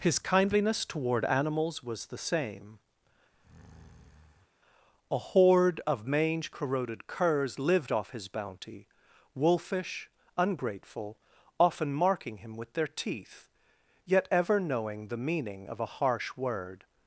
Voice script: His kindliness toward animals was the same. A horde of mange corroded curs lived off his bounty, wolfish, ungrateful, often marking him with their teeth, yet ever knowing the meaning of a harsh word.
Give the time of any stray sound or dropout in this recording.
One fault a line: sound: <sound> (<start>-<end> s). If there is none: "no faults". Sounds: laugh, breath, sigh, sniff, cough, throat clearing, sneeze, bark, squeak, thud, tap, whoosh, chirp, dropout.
sound: breath (3.3-4.5 s)